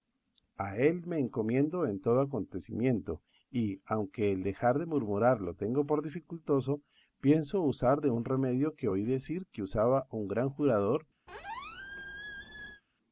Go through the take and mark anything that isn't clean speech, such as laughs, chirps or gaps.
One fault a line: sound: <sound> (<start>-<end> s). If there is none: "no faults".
sound: squeak (11.3-12.8 s)